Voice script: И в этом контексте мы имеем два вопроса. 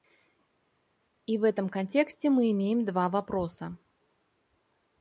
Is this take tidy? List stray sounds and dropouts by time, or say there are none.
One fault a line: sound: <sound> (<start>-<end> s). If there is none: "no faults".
no faults